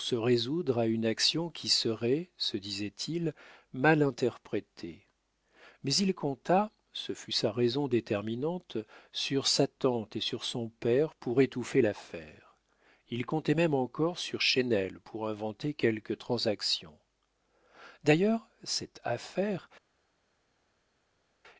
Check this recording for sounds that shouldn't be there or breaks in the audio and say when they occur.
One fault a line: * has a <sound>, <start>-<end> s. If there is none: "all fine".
all fine